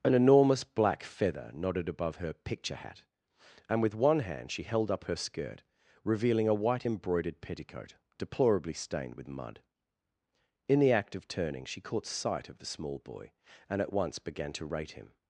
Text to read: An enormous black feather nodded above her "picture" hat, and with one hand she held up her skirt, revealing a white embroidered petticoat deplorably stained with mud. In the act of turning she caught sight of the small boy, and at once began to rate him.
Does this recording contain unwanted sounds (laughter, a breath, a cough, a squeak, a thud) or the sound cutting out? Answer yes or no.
no